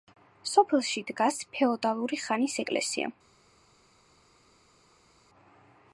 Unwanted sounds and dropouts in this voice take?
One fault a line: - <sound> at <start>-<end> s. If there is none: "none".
none